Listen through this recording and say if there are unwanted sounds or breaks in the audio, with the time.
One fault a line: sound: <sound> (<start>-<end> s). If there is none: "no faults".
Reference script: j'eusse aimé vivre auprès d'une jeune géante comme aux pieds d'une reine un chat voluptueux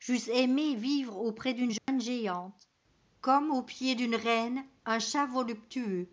sound: dropout (1.8-1.9 s)